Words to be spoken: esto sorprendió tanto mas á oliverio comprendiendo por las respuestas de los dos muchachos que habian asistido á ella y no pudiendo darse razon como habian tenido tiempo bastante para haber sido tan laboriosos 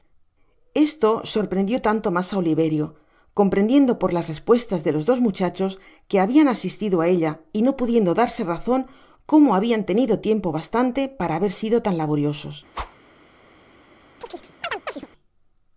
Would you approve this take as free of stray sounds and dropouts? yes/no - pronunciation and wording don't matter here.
no